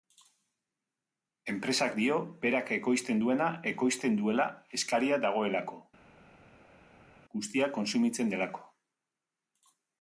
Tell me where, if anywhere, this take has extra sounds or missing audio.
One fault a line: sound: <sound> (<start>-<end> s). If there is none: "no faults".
no faults